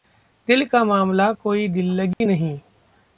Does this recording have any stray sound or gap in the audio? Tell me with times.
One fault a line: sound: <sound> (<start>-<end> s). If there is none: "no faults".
sound: dropout (2.1-2.2 s)